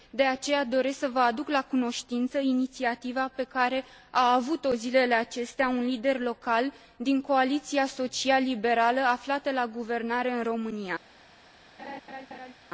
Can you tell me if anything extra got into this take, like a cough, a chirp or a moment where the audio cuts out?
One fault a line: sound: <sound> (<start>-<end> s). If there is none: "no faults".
sound: laugh (11.8-12.5 s)